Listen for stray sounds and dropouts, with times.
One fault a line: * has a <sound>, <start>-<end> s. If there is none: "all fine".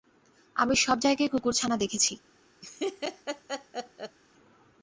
* has a laugh, 2.6-4.2 s